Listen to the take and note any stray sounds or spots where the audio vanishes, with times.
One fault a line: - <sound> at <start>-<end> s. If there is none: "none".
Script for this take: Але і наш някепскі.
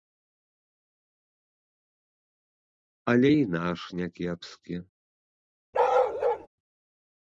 - bark at 5.7-6.5 s